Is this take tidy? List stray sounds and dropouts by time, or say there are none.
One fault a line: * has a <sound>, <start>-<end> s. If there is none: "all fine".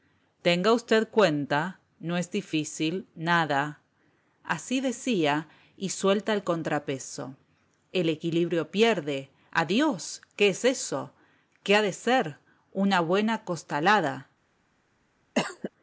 * has a cough, 15.4-15.7 s